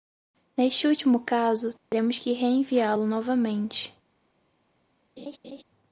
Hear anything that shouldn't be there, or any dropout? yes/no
yes